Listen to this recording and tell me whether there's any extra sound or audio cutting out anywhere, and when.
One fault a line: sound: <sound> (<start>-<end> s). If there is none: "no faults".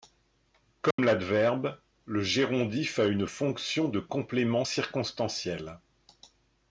sound: dropout (0.9-1.0 s)